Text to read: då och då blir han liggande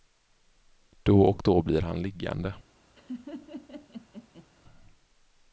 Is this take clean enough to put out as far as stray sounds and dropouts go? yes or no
no